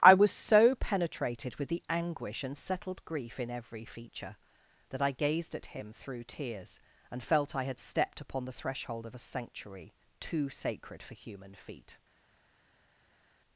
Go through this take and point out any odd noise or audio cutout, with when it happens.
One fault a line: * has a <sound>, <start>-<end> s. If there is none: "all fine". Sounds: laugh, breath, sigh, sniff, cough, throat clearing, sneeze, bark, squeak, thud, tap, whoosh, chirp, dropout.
all fine